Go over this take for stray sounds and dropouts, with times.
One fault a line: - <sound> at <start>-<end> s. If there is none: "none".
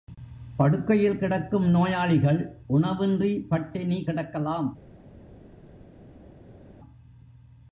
none